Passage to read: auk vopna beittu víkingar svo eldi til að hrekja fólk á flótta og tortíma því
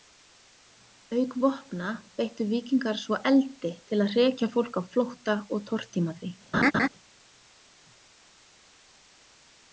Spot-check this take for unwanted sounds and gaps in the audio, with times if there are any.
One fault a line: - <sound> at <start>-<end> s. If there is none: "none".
- laugh at 6.5-6.9 s